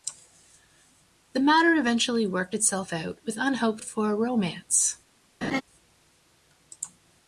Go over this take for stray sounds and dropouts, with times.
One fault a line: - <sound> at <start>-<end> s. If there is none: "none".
- laugh at 5.4-5.6 s